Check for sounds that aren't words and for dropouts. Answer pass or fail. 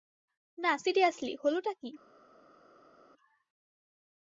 pass